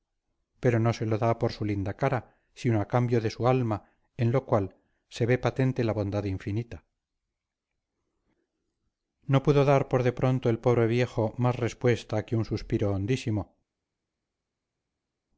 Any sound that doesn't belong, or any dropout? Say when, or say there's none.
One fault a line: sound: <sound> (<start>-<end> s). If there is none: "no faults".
no faults